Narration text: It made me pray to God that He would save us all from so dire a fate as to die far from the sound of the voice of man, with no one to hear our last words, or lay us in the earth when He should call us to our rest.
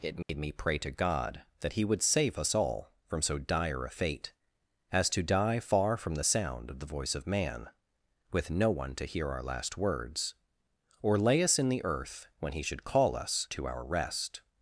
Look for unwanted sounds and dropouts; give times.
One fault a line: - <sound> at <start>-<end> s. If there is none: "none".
- dropout at 0.2-0.3 s